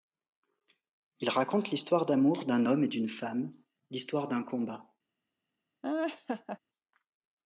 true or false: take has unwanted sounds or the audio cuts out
true